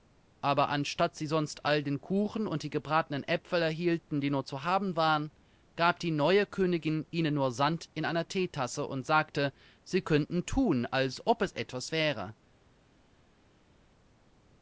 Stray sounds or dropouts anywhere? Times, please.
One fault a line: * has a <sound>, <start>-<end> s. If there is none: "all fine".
all fine